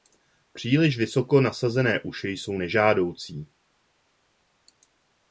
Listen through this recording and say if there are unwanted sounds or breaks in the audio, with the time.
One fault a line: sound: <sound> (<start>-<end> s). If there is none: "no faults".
no faults